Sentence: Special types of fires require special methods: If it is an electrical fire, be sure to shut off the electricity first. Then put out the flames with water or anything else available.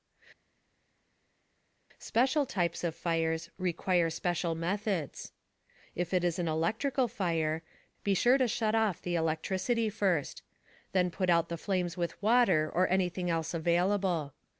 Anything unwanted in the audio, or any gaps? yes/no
no